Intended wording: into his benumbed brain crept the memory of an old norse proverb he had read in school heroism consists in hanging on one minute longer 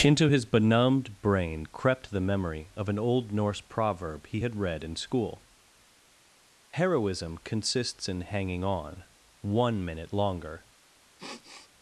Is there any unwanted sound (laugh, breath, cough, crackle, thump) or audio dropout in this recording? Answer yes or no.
yes